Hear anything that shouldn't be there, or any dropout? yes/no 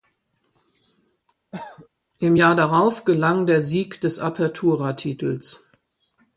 yes